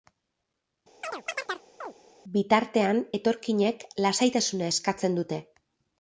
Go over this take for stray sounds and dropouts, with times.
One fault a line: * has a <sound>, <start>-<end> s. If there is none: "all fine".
* has a chirp, 1.0-1.9 s